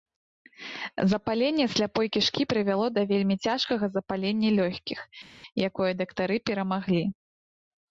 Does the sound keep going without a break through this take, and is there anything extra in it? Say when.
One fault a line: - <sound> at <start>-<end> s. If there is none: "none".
none